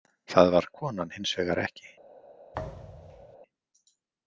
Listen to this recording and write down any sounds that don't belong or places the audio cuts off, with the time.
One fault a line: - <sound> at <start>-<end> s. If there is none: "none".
- thud at 2.5-3.4 s